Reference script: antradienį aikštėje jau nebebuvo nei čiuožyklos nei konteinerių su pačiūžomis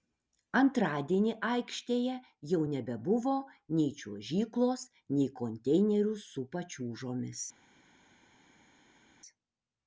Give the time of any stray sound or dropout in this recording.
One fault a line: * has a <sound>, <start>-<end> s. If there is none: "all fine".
all fine